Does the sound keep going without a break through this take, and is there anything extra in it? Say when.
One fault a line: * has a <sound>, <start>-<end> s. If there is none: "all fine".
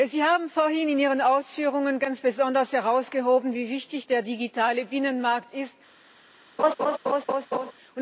* has a laugh, 6.6-7.7 s